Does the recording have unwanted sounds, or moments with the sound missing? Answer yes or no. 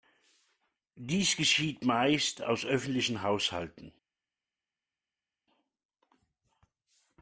no